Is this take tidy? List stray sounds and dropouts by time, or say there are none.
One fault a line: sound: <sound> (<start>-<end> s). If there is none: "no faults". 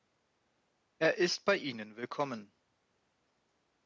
no faults